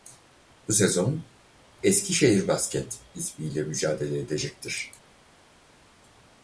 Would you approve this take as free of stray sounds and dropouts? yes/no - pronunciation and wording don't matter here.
yes